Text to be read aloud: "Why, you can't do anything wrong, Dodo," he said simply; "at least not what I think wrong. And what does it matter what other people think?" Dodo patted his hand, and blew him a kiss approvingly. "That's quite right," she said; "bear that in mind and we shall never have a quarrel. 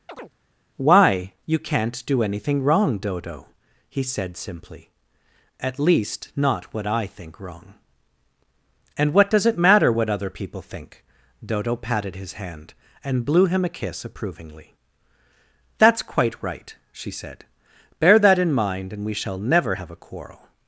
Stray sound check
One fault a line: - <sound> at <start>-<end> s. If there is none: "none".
- chirp at 0.1-0.3 s